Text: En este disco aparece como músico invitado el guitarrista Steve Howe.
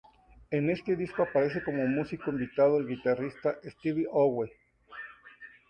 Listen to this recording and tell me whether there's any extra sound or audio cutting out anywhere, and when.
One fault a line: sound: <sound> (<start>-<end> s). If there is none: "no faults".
no faults